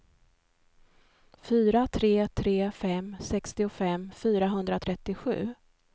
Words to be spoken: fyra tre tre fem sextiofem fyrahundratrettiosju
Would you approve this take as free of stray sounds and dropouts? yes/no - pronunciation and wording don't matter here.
yes